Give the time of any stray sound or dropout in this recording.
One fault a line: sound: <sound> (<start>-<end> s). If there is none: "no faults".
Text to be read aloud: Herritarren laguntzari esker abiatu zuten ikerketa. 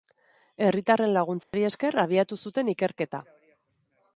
sound: dropout (1.4-1.5 s)